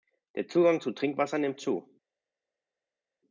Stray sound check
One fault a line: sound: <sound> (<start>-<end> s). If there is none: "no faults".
no faults